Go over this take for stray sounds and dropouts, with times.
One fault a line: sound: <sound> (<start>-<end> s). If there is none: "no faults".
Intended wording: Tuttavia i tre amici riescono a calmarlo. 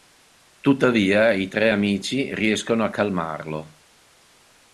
no faults